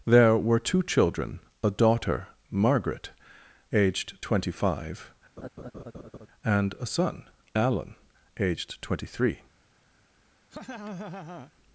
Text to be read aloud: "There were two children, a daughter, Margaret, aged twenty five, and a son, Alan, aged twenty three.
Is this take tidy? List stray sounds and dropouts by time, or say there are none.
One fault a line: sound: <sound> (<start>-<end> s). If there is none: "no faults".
sound: laugh (5.4-6.3 s)
sound: laugh (10.5-11.5 s)